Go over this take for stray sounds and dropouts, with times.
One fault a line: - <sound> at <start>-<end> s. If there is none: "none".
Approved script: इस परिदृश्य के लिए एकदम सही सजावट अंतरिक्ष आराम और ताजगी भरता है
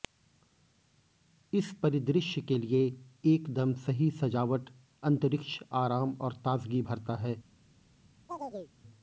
- chirp at 8.3-8.7 s